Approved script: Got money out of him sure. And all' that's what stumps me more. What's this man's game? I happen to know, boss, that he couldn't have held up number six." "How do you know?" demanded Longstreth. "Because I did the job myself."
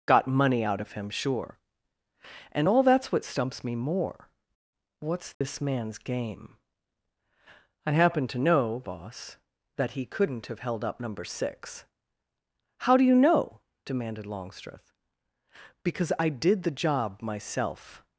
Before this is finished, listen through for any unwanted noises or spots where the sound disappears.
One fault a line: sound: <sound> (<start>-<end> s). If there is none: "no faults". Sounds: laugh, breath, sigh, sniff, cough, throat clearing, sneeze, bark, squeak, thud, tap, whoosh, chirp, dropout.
sound: dropout (5.3-5.4 s)